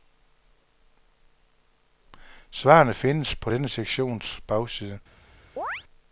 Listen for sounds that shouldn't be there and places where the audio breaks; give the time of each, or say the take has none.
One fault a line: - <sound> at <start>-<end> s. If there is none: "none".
- chirp at 5.6-5.8 s